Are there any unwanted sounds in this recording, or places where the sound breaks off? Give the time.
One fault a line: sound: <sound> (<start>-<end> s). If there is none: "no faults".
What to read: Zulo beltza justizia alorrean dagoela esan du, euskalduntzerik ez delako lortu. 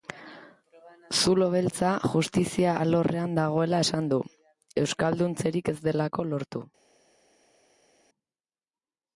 no faults